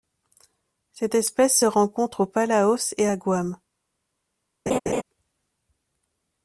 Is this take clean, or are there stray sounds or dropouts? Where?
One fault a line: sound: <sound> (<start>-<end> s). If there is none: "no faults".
sound: laugh (4.7-5.0 s)